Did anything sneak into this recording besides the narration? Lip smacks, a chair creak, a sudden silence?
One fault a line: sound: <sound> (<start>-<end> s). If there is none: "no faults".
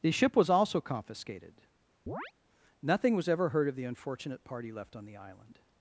sound: chirp (2.1-2.3 s)